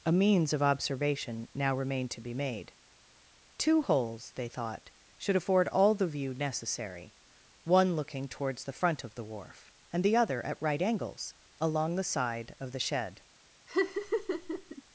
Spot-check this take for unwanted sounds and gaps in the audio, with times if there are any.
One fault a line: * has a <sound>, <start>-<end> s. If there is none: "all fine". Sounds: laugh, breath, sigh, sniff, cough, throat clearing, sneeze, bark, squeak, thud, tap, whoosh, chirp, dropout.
* has a laugh, 13.7-14.8 s